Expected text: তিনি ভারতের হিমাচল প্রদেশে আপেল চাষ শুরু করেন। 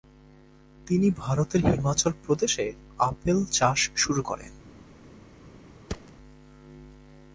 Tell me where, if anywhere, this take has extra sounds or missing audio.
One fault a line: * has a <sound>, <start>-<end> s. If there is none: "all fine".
* has a thud, 5.9-6.1 s